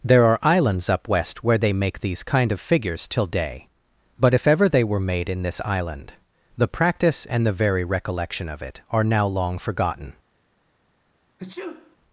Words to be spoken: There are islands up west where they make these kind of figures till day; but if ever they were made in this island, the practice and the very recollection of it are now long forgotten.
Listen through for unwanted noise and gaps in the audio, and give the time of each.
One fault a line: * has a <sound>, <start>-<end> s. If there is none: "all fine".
* has a sneeze, 11.4-12.0 s